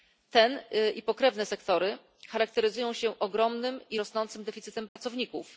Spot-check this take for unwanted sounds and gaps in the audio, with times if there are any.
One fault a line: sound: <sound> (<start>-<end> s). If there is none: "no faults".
sound: dropout (4.9-5.0 s)